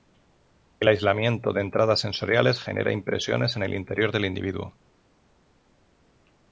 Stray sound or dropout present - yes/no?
no